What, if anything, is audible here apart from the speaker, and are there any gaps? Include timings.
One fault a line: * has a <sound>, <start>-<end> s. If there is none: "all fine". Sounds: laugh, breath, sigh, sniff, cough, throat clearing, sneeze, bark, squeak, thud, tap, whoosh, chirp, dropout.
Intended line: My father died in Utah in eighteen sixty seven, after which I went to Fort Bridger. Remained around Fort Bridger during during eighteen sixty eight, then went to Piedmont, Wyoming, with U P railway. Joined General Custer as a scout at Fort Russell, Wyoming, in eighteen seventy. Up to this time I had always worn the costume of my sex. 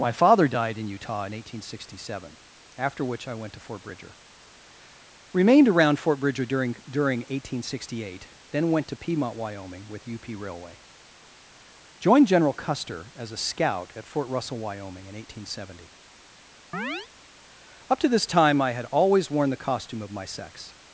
* has a chirp, 16.7-17.1 s